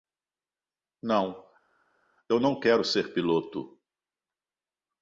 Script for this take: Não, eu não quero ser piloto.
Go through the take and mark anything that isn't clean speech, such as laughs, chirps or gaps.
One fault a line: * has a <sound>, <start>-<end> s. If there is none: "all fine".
all fine